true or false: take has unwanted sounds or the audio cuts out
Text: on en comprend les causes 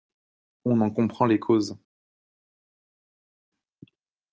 false